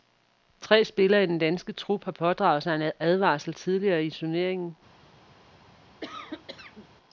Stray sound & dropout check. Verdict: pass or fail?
fail